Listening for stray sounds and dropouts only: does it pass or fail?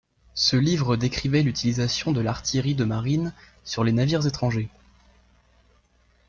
pass